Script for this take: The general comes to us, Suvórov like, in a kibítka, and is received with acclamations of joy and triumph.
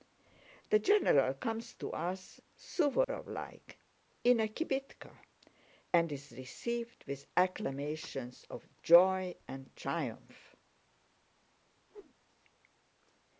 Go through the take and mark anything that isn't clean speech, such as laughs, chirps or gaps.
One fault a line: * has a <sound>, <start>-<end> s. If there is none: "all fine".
* has a dropout, 3.0-3.1 s
* has a whoosh, 11.9-12.1 s